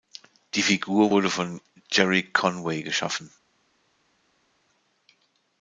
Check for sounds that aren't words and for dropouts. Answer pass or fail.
pass